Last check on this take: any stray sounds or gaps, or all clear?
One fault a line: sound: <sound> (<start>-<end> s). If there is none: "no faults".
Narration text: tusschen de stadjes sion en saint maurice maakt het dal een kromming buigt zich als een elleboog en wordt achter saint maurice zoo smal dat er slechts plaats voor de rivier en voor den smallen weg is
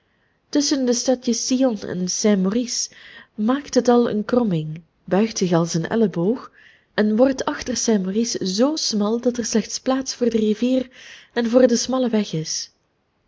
no faults